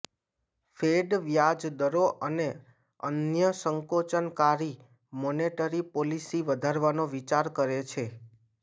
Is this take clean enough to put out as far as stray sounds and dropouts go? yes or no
yes